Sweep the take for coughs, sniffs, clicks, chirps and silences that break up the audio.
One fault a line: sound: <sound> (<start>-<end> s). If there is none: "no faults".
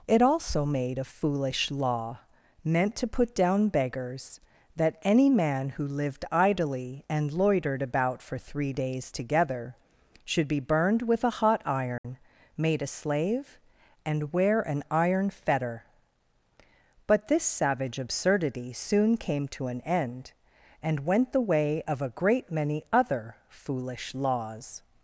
sound: dropout (12.0-12.0 s)